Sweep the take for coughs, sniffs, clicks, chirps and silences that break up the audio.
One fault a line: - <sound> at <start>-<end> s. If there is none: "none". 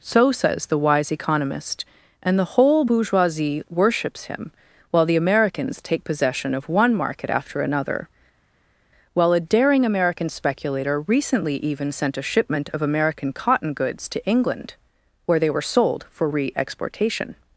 none